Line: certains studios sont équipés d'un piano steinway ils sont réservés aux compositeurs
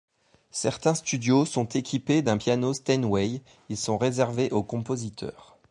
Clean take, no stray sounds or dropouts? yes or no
yes